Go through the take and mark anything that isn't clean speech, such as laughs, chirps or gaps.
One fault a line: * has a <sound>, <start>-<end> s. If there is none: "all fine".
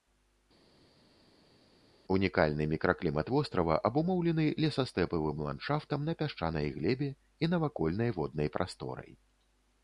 all fine